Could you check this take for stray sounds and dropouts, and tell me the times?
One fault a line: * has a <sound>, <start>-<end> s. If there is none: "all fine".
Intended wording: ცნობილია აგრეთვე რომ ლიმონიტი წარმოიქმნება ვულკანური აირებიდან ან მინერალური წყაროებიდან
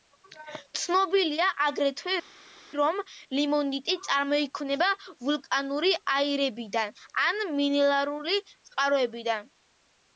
all fine